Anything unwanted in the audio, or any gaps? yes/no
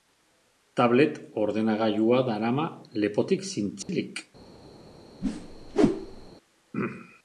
yes